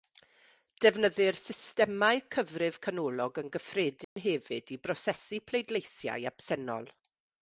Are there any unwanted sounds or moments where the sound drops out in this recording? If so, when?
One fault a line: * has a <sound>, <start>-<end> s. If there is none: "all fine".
* has a dropout, 4.0-4.2 s